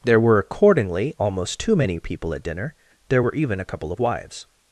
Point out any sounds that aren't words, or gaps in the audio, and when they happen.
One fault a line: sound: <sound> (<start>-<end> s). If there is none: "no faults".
no faults